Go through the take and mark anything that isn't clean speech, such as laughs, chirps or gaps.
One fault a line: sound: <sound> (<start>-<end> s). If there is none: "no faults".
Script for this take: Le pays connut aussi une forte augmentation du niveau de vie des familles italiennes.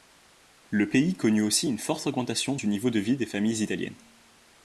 no faults